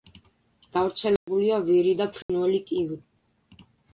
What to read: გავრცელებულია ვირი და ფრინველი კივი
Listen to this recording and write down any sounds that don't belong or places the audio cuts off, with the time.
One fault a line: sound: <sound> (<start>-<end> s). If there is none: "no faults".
sound: dropout (1.2-1.3 s)
sound: dropout (2.2-2.3 s)